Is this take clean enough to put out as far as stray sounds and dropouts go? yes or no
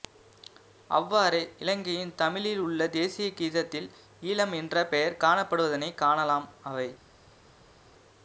yes